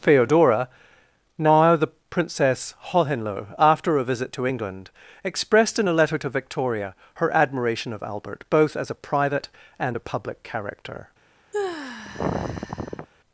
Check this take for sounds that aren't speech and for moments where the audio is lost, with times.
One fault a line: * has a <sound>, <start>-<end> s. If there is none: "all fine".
* has a sigh, 11.5-13.1 s